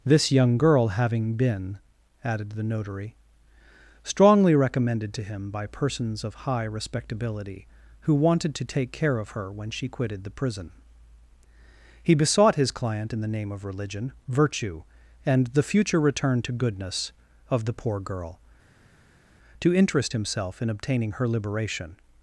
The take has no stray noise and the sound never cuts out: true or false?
true